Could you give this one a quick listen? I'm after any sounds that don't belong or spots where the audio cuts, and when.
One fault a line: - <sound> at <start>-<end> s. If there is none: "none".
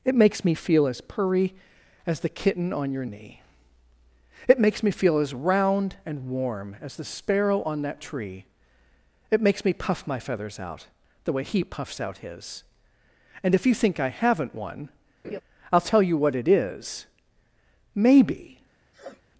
- laugh at 15.2-15.4 s
- sniff at 18.9-19.2 s